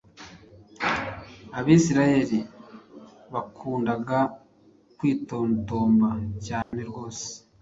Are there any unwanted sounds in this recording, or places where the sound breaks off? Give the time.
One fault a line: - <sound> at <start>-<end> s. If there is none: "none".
- dropout at 6.6-6.7 s